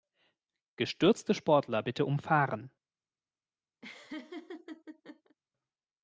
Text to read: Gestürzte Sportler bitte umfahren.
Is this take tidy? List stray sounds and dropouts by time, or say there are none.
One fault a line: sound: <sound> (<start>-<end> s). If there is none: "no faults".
sound: laugh (3.8-5.4 s)